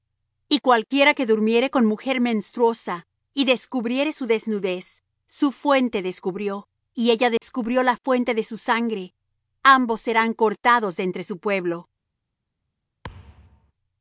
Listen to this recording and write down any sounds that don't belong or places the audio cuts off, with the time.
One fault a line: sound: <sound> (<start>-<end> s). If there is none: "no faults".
sound: dropout (7.4-7.4 s)
sound: thud (13.0-13.7 s)